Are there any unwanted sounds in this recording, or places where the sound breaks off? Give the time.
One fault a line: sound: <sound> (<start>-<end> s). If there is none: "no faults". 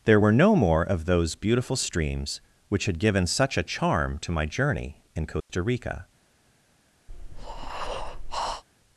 sound: dropout (5.4-5.5 s)
sound: breath (7.1-8.6 s)